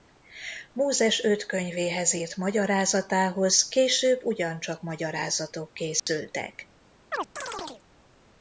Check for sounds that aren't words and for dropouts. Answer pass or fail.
fail